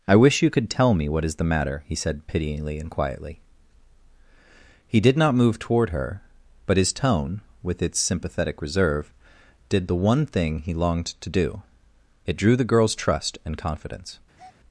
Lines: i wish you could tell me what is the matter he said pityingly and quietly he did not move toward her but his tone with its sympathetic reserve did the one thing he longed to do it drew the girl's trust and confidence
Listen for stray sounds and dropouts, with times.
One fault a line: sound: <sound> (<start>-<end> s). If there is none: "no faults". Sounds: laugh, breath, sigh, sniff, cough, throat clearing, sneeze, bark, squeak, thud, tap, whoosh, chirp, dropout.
sound: breath (14.3-14.6 s)